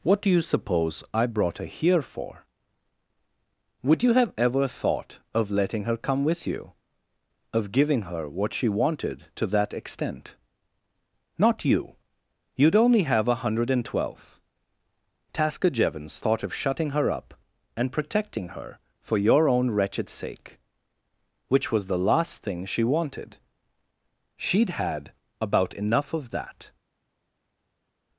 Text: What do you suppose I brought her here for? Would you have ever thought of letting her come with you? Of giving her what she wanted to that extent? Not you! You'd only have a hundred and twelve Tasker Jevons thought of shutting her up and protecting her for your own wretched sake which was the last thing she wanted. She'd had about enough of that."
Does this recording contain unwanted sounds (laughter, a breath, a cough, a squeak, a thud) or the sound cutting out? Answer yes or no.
no